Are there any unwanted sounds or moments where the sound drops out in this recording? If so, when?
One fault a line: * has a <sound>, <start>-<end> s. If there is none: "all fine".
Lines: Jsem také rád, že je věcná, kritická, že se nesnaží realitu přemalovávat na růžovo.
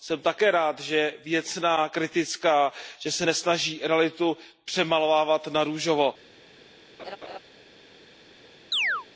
* has a laugh, 7.0-7.4 s
* has a chirp, 8.7-9.1 s